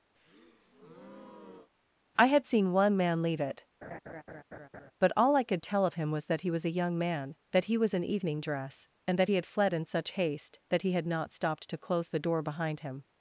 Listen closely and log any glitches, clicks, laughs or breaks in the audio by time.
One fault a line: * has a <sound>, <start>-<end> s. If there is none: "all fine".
* has a breath, 0.1-1.7 s
* has a laugh, 3.8-4.9 s